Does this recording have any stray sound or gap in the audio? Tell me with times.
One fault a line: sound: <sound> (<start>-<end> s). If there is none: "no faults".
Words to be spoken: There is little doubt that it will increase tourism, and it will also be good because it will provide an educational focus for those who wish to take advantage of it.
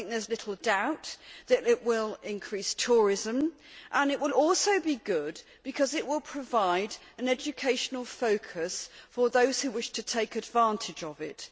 no faults